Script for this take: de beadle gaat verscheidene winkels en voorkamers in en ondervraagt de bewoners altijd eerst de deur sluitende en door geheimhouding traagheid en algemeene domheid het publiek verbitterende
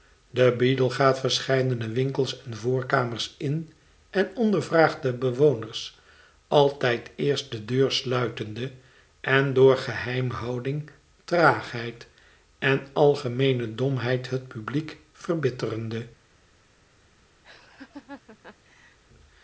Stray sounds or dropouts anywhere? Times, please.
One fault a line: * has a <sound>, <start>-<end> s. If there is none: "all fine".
* has a laugh, 17.4-19.0 s